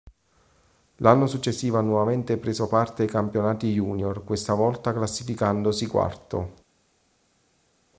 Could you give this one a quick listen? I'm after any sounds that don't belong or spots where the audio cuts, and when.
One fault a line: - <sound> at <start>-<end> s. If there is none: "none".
none